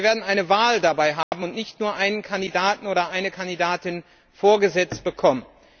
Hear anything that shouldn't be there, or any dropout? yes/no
yes